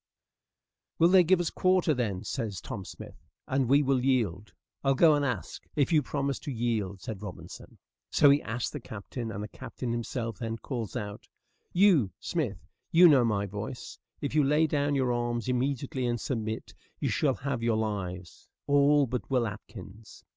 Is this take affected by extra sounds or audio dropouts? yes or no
no